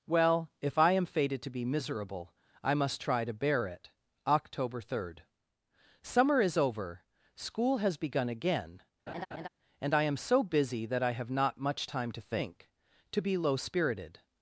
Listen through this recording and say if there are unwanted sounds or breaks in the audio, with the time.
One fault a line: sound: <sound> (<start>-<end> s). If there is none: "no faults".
sound: laugh (9.1-9.5 s)